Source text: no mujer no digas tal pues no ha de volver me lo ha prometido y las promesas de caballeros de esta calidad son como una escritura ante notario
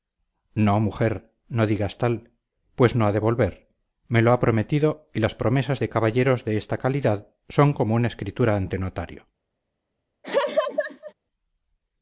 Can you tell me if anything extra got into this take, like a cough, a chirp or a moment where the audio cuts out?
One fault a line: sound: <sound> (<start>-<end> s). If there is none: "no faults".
sound: laugh (10.2-11.1 s)